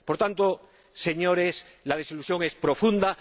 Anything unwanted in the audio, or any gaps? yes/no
no